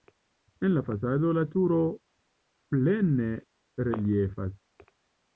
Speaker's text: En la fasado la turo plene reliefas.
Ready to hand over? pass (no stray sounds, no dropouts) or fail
pass